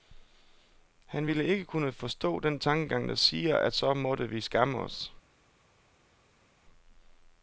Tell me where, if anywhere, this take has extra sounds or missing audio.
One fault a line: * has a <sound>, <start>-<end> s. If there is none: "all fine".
all fine